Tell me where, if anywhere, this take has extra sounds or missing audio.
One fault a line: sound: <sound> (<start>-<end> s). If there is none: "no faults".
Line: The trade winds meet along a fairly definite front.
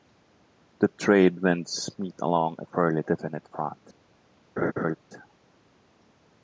sound: laugh (4.6-5.0 s)